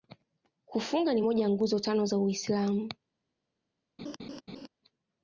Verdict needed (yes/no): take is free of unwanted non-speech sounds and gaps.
no